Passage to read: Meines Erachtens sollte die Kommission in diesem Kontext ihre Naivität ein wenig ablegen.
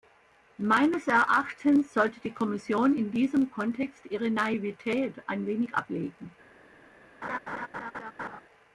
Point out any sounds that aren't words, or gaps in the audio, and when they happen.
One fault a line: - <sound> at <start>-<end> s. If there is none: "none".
- laugh at 7.2-8.4 s